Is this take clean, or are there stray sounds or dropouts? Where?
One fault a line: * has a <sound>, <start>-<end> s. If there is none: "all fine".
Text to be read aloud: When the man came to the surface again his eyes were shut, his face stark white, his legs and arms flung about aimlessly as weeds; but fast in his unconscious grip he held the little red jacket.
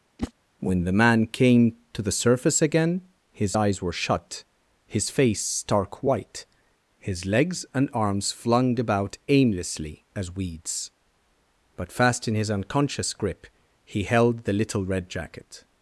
* has a whoosh, 0.2-0.3 s